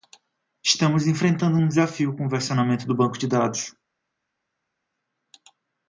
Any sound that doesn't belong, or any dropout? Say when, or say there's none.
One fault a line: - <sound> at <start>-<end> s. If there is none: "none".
none